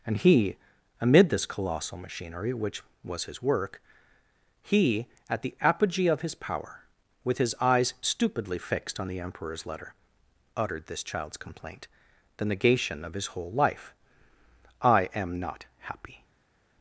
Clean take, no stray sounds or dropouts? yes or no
yes